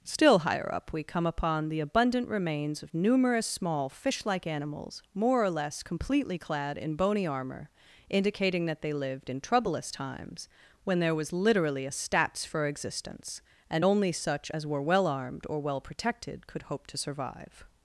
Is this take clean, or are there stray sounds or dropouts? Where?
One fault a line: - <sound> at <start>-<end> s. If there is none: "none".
none